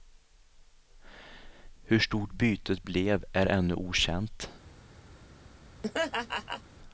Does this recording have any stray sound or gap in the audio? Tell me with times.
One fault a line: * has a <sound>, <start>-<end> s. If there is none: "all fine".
* has a laugh, 5.8-6.6 s